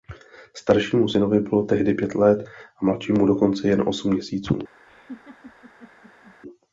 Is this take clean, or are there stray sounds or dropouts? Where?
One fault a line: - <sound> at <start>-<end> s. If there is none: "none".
- laugh at 4.9-6.3 s